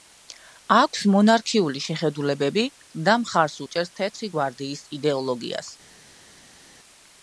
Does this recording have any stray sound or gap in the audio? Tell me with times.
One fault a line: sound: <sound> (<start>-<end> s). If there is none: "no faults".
no faults